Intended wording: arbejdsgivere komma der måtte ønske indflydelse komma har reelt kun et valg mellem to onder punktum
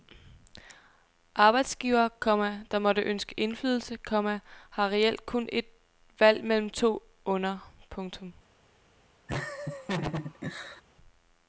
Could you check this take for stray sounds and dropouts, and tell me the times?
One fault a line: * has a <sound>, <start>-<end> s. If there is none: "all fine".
* has a laugh, 9.3-10.8 s